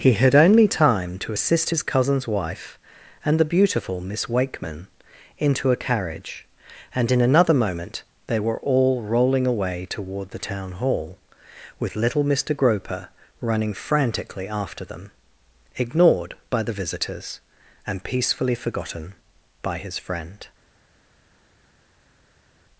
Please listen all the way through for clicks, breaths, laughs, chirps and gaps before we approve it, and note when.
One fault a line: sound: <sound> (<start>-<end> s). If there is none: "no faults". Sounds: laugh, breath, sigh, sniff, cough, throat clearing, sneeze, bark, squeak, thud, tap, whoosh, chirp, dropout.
no faults